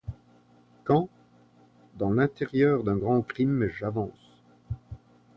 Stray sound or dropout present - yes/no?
no